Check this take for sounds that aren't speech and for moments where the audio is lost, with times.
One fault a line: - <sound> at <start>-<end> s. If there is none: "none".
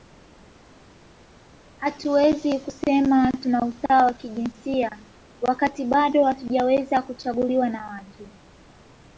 none